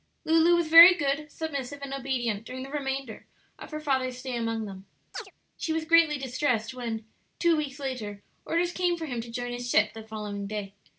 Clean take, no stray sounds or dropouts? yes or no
no